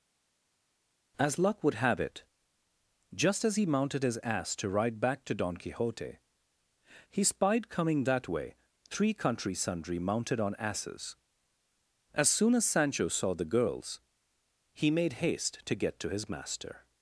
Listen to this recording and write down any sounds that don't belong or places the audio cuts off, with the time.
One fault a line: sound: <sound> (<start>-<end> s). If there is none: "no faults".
no faults